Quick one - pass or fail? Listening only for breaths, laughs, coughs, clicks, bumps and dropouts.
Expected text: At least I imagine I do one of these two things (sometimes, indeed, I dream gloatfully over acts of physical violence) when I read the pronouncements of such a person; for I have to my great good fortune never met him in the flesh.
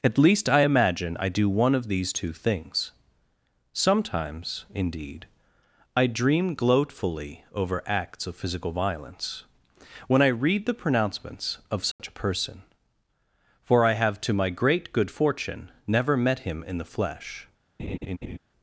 fail